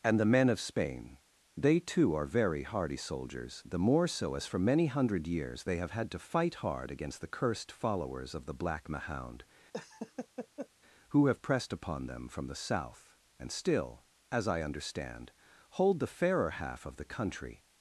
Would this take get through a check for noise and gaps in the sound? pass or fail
fail